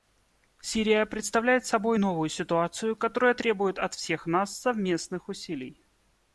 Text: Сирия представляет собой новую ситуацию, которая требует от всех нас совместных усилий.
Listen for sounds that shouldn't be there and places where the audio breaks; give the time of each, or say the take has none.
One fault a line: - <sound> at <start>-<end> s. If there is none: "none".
none